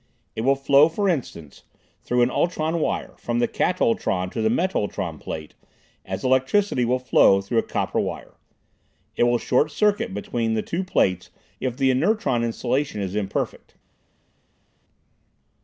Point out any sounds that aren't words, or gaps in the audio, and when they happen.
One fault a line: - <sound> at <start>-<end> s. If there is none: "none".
none